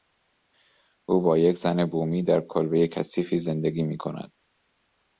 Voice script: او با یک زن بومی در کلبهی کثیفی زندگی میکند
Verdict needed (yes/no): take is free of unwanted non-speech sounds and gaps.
yes